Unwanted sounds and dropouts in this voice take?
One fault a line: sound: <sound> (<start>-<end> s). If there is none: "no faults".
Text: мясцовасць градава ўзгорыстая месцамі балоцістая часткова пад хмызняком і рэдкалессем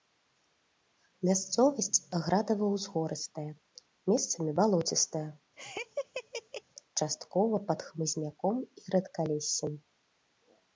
sound: laugh (5.6-6.6 s)